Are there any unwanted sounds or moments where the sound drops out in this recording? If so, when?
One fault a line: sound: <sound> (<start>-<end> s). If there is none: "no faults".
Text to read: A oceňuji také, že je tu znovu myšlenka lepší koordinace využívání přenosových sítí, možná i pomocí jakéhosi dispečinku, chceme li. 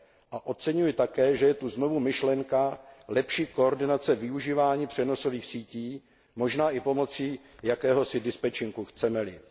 no faults